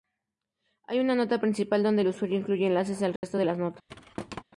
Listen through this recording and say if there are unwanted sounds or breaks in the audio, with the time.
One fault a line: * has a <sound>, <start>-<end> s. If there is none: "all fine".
* has a dropout, 3.2-3.2 s
* has a thud, 3.9-4.4 s